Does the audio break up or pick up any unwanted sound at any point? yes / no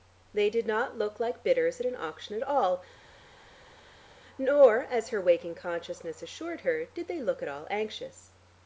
no